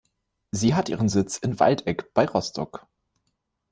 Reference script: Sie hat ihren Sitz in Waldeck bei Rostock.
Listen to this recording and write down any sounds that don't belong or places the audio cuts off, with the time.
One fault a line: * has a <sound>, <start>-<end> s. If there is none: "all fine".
all fine